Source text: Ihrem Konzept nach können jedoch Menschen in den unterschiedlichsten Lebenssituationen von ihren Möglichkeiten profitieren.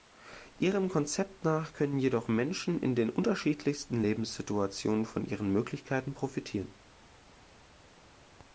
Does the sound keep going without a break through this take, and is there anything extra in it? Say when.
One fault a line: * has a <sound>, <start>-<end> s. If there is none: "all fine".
all fine